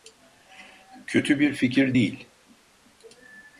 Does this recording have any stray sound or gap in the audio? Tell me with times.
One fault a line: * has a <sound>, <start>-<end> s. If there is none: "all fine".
all fine